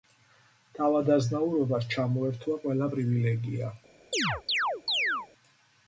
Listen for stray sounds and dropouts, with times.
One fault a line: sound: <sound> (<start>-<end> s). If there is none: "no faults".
sound: chirp (4.1-5.3 s)